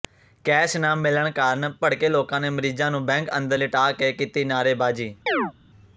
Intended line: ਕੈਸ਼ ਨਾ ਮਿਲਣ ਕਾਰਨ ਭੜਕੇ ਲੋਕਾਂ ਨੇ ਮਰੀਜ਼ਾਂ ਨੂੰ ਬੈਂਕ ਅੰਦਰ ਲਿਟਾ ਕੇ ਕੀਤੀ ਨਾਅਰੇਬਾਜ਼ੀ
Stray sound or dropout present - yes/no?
yes